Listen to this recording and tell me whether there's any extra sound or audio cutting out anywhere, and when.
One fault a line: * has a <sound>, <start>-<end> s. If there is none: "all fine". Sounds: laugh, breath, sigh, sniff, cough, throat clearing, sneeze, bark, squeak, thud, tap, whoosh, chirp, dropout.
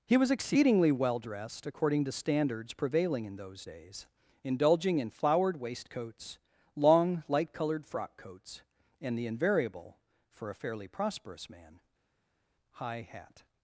all fine